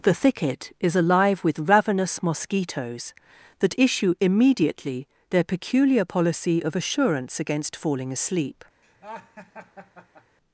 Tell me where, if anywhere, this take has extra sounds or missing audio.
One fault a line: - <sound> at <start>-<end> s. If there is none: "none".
- laugh at 8.8-10.4 s